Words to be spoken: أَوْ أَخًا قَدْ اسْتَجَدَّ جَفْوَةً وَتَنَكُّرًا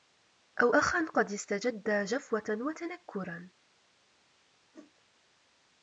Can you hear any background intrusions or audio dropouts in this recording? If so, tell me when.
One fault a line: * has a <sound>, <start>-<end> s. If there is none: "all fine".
* has a whoosh, 4.7-4.9 s